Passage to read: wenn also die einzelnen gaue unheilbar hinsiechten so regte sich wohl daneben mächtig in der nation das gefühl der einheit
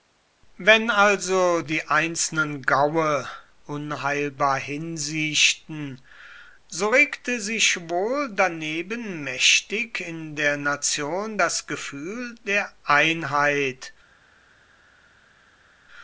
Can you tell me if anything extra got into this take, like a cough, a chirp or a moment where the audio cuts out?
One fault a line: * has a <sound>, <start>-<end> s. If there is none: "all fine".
all fine